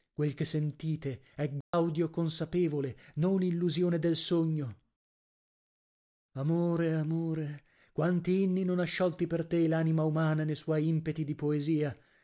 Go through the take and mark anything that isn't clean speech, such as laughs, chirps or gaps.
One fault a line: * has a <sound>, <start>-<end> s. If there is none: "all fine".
* has a dropout, 1.6-1.7 s